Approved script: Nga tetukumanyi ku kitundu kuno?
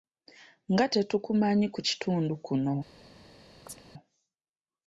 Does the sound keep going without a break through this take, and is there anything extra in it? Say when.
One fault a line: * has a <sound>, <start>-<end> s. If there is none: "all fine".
* has a chirp, 3.7-3.8 s